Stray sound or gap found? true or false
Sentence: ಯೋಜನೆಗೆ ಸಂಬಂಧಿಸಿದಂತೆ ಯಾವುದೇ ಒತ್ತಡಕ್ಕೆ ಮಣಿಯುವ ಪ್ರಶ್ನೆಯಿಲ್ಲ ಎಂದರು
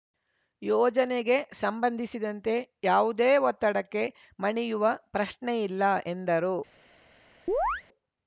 true